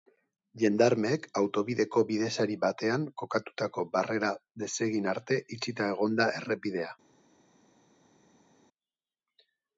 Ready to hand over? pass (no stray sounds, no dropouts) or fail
pass